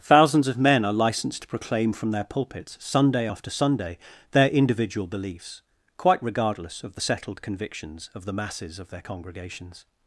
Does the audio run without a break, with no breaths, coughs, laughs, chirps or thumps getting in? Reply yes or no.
yes